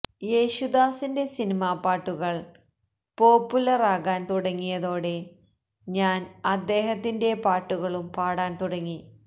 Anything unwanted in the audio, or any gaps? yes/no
no